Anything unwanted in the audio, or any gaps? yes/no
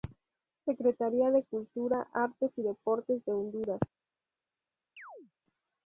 yes